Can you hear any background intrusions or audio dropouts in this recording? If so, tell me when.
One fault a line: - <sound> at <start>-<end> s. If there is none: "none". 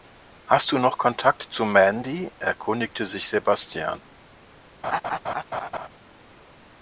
- laugh at 4.8-5.9 s